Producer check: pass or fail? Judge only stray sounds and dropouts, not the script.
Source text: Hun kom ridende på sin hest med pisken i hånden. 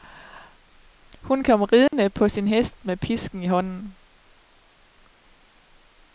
fail